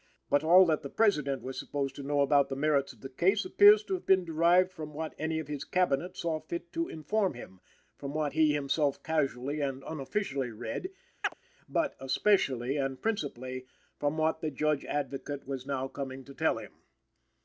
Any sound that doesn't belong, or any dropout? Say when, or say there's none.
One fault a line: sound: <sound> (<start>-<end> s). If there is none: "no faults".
sound: chirp (11.2-11.3 s)